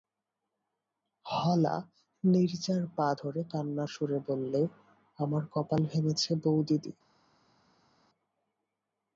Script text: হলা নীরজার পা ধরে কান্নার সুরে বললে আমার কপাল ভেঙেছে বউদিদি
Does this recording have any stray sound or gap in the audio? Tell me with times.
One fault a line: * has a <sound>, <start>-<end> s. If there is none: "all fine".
all fine